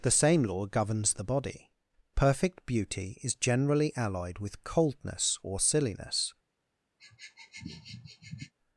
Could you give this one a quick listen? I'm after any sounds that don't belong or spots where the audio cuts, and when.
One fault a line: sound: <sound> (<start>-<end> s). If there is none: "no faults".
sound: sniff (7.0-8.5 s)